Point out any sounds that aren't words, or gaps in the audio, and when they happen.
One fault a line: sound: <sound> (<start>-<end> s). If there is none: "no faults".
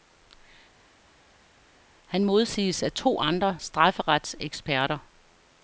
no faults